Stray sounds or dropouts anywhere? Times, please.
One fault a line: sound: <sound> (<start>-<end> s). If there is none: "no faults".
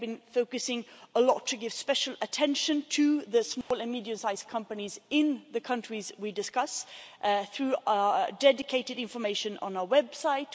sound: dropout (3.6-3.7 s)